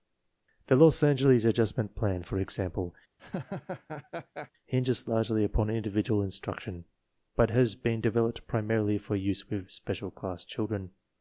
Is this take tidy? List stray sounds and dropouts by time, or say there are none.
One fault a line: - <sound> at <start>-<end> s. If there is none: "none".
- laugh at 3.2-4.5 s